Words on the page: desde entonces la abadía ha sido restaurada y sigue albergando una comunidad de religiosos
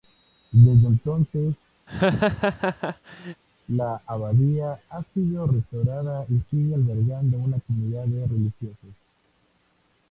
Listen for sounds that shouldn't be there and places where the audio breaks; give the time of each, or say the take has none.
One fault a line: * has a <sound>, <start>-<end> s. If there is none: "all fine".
* has a laugh, 1.9-3.4 s